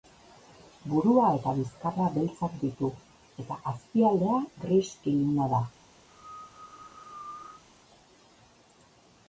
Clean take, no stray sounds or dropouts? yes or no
no